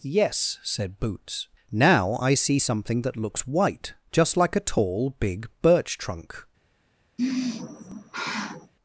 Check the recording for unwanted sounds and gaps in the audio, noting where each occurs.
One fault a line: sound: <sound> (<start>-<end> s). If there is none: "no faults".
sound: sigh (7.2-8.7 s)